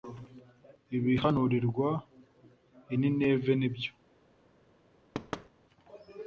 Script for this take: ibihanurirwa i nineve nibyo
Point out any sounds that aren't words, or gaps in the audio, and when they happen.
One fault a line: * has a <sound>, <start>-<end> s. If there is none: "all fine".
* has a thud, 5.1-5.5 s